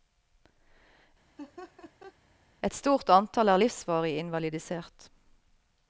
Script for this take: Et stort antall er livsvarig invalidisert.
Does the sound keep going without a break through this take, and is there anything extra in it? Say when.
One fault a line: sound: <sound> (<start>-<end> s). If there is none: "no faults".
sound: laugh (1.4-2.2 s)